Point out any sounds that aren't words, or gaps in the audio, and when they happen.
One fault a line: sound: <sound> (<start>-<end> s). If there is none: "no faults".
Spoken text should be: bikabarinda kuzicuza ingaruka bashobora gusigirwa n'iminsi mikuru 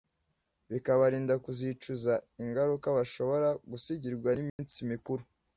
sound: dropout (4.5-4.6 s)